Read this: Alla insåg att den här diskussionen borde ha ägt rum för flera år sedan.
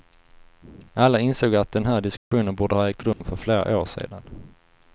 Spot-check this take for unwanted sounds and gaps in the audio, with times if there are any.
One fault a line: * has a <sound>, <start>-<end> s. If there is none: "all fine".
* has a dropout, 2.2-2.3 s
* has a dropout, 3.1-3.2 s